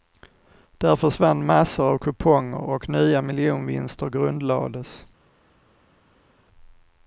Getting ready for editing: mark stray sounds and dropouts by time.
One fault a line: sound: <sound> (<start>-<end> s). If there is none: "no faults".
no faults